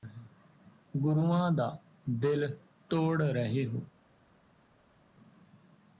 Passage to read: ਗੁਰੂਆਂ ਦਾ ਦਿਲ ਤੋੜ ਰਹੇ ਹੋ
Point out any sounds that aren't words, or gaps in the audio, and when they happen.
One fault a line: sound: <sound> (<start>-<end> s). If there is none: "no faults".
no faults